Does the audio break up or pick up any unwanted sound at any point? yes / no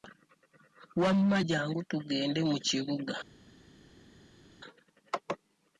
no